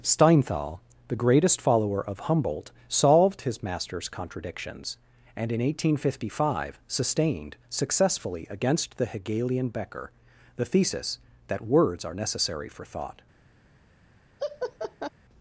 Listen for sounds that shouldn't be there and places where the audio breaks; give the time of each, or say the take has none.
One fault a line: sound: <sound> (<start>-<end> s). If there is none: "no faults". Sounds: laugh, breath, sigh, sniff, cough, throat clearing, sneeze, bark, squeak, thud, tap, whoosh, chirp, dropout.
sound: laugh (14.4-15.1 s)